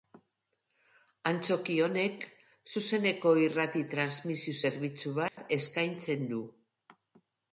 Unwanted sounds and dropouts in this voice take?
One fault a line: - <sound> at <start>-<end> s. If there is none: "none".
- dropout at 5.3-5.4 s